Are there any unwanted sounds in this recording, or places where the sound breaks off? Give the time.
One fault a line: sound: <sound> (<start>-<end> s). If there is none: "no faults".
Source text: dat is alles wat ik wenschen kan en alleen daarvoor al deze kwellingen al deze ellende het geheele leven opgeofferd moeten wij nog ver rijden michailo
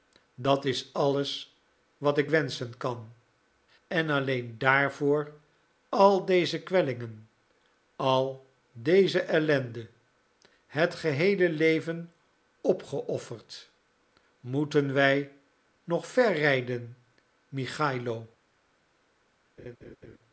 sound: laugh (19.6-20.2 s)